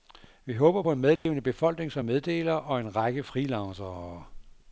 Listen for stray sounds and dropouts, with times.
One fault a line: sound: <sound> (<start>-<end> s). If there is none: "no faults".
sound: dropout (1.2-1.3 s)